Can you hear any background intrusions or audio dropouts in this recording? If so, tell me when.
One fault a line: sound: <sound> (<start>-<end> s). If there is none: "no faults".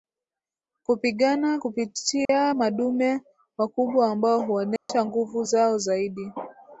sound: dropout (2.2-2.3 s)
sound: dropout (4.8-4.9 s)